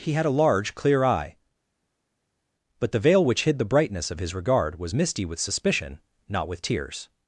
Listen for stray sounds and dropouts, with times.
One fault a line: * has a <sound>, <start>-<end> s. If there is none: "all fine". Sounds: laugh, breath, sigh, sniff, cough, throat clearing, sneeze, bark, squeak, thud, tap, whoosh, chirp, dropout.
all fine